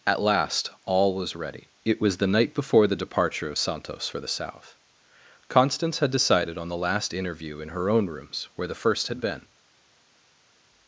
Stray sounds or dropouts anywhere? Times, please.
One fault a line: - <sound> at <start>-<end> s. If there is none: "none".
none